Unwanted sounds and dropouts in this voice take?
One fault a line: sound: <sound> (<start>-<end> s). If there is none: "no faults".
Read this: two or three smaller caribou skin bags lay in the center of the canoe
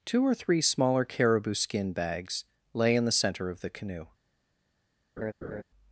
sound: laugh (5.2-5.6 s)